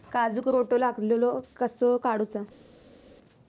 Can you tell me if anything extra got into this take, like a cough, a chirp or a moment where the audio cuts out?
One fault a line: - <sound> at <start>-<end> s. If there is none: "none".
none